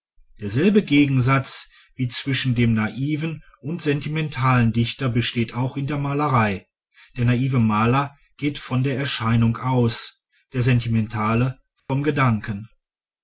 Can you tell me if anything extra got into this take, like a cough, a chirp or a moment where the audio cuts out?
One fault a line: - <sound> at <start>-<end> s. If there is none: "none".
- dropout at 11.8-11.9 s